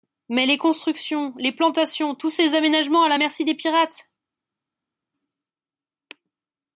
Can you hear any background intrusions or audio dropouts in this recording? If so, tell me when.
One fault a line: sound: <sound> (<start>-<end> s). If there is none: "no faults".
no faults